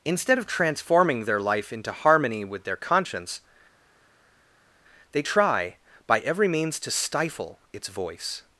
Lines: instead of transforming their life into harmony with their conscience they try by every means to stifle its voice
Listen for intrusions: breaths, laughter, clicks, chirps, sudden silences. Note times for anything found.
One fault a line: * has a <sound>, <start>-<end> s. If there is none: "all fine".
all fine